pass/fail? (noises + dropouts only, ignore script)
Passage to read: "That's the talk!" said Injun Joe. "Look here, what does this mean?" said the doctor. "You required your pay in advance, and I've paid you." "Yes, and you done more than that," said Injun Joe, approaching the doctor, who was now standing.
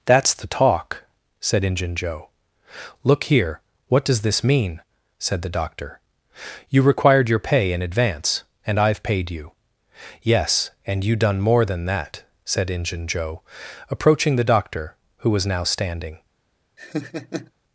fail